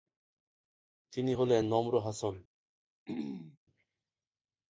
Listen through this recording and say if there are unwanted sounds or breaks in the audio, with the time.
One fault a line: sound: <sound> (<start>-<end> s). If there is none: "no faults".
sound: throat clearing (3.1-3.6 s)